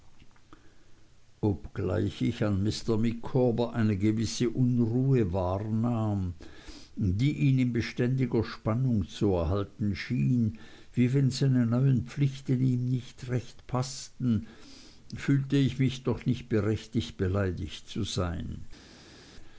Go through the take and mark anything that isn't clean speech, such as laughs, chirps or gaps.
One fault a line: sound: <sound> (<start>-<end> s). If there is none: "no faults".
no faults